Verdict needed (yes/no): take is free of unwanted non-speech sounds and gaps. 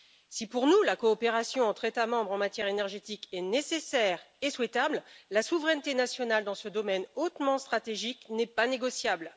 yes